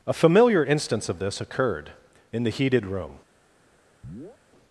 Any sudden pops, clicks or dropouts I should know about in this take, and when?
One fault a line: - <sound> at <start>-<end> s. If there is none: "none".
- chirp at 4.0-4.4 s